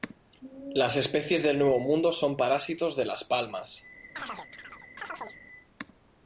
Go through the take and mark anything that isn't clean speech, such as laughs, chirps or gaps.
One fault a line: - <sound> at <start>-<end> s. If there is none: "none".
- chirp at 4.2-5.4 s